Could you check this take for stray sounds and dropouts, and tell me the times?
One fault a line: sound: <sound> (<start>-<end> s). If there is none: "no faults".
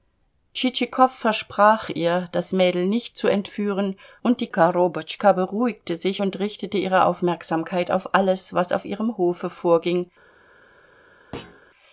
sound: thud (11.3-11.6 s)